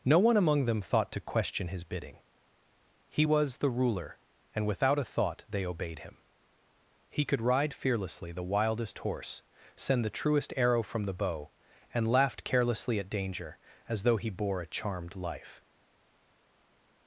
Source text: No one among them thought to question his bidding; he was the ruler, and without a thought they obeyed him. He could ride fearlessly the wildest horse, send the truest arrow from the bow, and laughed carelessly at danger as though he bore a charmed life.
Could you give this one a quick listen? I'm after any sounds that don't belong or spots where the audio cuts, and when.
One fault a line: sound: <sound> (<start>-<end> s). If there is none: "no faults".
no faults